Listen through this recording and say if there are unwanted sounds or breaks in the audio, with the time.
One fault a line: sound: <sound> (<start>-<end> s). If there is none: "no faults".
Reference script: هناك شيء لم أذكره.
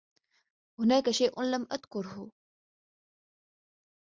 no faults